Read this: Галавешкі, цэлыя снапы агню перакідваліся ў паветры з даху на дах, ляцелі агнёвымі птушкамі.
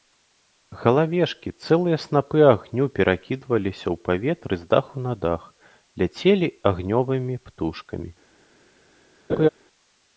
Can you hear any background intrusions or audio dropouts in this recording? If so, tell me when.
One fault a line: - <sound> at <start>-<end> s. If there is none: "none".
- laugh at 9.3-9.5 s